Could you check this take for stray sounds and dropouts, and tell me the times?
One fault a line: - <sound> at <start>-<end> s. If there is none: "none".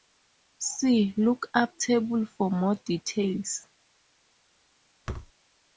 - thud at 5.1-5.3 s